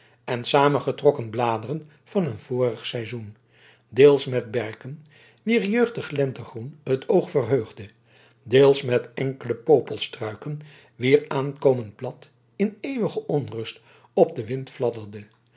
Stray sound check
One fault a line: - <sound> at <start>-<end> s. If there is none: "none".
none